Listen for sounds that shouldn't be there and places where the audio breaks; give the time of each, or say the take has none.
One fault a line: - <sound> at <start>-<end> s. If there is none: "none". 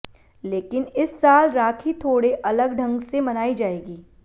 none